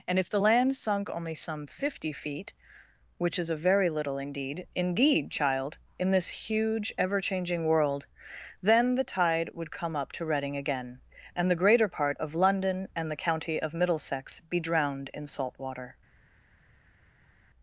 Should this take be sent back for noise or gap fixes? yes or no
no